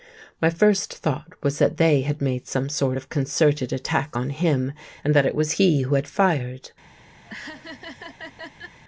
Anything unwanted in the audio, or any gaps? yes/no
yes